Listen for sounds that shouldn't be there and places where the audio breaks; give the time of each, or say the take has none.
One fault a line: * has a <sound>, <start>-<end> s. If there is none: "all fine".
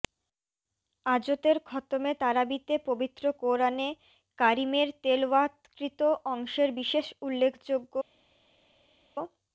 all fine